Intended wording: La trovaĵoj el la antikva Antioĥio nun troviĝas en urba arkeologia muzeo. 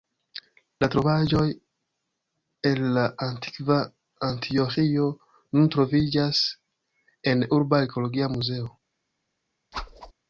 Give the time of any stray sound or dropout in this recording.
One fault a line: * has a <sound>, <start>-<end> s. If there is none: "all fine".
* has a whoosh, 9.7-10.1 s